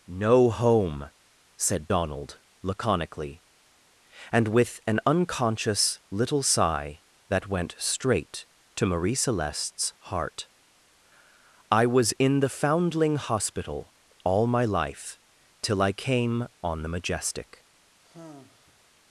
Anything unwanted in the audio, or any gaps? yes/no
yes